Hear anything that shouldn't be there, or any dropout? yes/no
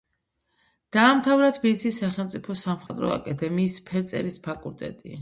yes